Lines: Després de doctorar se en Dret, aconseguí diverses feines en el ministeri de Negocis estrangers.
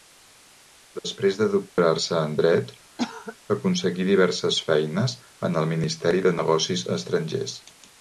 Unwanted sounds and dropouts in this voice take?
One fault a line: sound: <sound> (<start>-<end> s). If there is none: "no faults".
sound: dropout (1.7-1.8 s)
sound: cough (3.0-3.4 s)